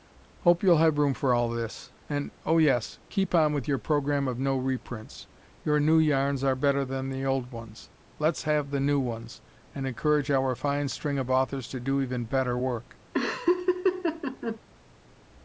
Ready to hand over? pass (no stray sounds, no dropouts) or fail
fail